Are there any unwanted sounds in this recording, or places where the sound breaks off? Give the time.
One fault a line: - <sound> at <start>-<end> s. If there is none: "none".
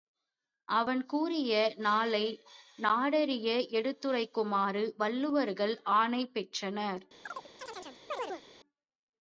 - chirp at 7.3-8.4 s